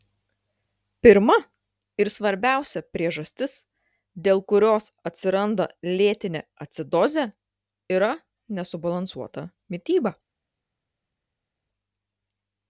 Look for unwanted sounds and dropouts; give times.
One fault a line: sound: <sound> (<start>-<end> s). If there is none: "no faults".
no faults